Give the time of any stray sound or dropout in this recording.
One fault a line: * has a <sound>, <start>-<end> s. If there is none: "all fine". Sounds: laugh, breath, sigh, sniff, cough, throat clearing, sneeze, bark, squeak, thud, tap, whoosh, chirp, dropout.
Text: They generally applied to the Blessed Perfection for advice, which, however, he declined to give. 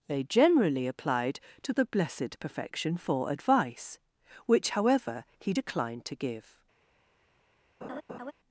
* has a laugh, 7.8-8.3 s